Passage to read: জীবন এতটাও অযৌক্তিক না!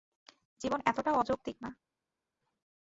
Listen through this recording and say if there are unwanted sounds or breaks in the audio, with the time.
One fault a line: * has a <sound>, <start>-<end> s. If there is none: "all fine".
all fine